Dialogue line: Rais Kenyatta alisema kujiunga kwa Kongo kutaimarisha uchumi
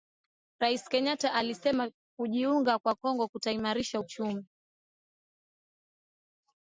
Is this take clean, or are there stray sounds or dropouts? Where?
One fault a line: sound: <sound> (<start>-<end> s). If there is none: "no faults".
no faults